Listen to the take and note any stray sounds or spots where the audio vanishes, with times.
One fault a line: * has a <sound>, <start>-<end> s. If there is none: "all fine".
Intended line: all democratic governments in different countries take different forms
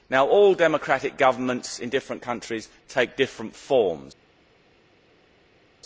all fine